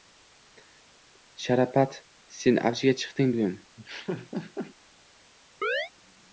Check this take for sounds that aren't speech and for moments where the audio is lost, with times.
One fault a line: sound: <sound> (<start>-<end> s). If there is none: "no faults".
sound: laugh (3.8-4.8 s)
sound: chirp (5.6-5.9 s)